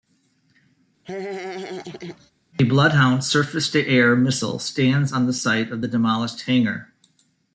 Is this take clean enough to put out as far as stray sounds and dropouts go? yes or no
no